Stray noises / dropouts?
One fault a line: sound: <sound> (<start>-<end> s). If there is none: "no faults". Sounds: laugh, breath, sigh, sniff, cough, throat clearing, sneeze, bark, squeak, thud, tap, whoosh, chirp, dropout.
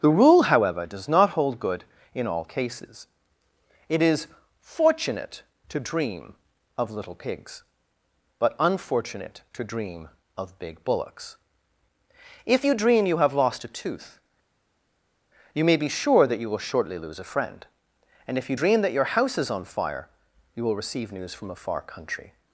no faults